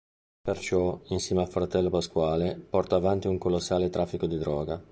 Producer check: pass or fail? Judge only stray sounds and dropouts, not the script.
pass